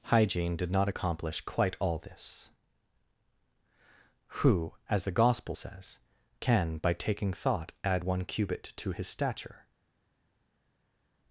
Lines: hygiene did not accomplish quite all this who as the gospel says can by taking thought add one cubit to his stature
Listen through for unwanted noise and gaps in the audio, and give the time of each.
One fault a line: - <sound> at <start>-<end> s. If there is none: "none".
none